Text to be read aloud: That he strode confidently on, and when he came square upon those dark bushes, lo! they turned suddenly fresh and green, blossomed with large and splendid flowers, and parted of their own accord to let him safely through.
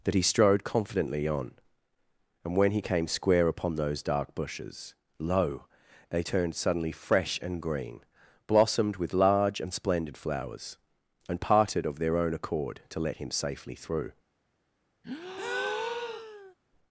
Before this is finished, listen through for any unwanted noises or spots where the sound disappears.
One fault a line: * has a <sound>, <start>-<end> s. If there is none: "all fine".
* has a breath, 15.0-16.5 s